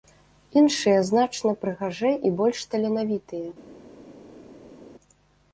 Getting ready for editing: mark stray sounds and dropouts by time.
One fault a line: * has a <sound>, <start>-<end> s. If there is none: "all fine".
all fine